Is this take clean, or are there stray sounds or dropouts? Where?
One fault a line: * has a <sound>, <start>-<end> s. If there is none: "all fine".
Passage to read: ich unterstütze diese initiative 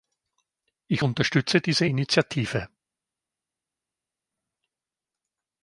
all fine